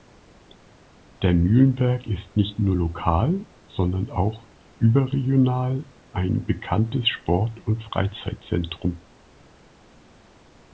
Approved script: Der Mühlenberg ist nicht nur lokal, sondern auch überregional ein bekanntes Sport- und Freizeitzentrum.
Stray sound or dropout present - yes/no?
no